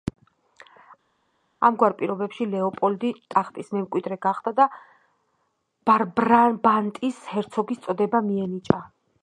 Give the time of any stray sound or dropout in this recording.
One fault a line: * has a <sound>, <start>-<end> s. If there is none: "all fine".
all fine